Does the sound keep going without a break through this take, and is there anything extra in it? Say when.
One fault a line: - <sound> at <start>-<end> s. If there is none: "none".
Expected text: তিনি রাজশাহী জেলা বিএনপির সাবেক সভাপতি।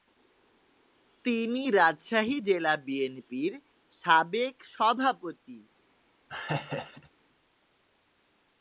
- laugh at 6.3-7.1 s